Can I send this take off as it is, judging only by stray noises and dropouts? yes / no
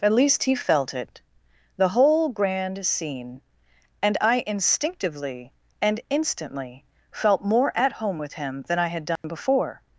no